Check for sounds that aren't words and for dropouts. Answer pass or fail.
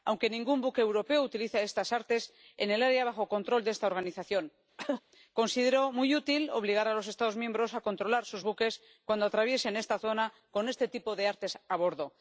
fail